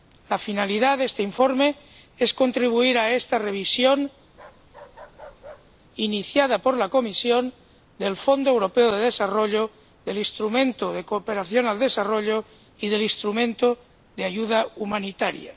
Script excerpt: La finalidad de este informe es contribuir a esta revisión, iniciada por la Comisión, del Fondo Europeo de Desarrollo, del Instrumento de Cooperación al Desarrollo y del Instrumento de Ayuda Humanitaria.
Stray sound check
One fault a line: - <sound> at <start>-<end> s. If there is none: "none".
- bark at 4.3-5.8 s